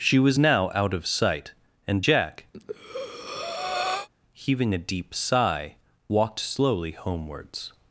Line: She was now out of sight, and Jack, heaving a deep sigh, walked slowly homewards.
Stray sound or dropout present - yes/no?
yes